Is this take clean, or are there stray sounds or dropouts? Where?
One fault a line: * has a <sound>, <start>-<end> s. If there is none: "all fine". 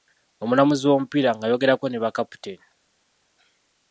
all fine